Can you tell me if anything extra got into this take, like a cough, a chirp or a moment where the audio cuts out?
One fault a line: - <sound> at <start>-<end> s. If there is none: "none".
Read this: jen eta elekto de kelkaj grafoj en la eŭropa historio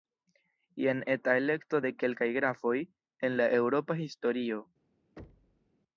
- thud at 5.2-5.7 s